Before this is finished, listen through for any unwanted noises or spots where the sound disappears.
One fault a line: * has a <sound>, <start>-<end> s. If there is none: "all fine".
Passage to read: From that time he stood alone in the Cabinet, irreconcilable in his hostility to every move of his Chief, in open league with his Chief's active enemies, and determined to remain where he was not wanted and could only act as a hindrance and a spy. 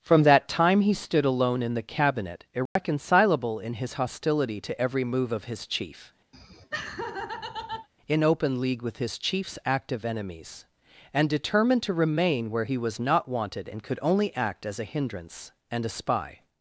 * has a dropout, 2.7-2.8 s
* has a laugh, 6.3-7.9 s